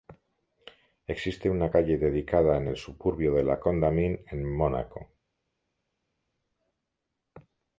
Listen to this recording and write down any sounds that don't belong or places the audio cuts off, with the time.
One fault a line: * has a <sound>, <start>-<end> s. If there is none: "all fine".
all fine